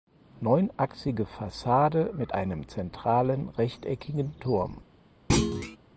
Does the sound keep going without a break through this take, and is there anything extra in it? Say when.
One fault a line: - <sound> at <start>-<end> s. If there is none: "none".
- thud at 5.3-5.8 s